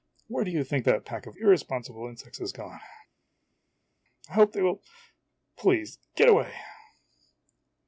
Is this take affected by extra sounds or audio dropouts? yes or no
no